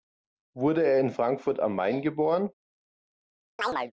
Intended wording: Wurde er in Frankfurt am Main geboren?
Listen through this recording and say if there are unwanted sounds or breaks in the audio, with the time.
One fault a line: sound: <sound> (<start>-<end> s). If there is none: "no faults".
sound: chirp (3.6-3.9 s)